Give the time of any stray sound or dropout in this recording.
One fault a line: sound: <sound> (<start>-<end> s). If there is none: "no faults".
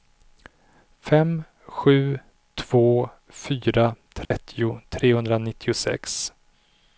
sound: dropout (4.2-4.3 s)